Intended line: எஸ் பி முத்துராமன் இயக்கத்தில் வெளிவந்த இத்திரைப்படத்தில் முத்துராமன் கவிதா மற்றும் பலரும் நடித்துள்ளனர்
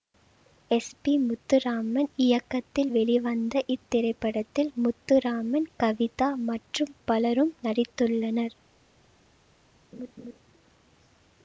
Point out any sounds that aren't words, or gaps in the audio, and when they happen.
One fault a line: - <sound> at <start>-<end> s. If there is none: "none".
- laugh at 9.9-10.4 s